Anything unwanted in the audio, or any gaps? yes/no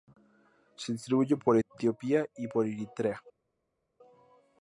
no